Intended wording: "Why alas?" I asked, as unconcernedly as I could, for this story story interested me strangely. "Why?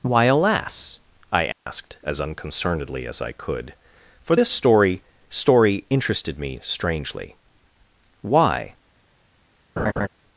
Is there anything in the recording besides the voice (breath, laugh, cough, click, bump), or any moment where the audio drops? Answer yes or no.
yes